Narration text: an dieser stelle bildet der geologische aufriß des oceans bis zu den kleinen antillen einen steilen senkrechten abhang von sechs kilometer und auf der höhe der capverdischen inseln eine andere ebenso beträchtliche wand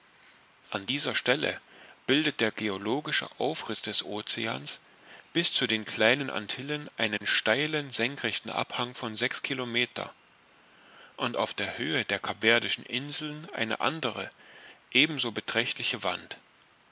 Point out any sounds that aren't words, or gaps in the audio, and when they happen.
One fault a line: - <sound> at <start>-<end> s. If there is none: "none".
- dropout at 7.2-7.2 s